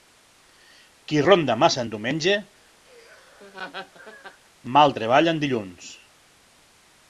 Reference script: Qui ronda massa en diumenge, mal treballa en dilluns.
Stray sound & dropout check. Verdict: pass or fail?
fail